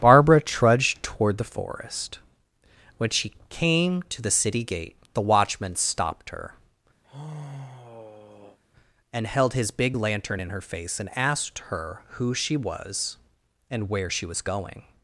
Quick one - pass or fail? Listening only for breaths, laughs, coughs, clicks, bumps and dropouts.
fail